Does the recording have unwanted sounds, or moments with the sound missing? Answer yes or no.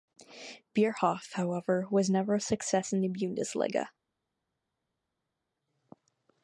no